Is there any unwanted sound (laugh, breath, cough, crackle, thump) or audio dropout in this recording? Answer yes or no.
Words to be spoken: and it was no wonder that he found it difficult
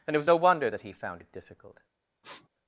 yes